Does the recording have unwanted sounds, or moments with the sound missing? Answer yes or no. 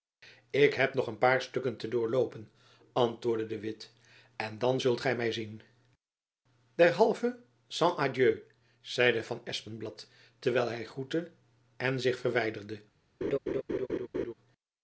yes